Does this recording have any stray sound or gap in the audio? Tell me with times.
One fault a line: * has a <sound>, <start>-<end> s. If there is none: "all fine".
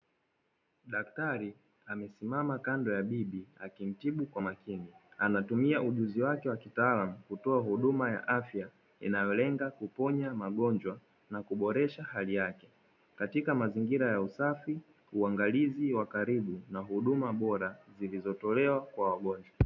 all fine